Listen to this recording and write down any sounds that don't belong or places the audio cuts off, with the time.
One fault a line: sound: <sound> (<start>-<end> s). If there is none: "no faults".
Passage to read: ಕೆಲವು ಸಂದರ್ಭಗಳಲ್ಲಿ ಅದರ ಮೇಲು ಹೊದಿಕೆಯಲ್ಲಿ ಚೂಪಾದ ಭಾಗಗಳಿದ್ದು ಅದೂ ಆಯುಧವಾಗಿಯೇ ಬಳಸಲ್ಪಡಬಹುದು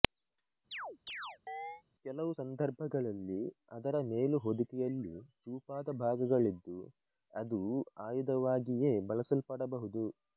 sound: chirp (0.7-1.8 s)